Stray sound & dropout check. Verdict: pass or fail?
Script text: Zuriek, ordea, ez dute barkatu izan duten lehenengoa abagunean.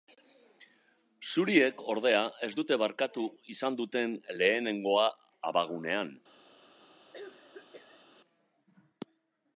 fail